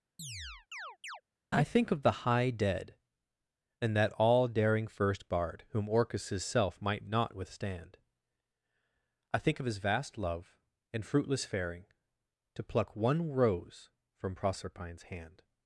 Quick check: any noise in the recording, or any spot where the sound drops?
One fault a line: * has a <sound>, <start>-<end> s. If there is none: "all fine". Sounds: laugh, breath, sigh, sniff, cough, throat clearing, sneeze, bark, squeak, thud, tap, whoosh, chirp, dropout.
* has a chirp, 0.2-1.2 s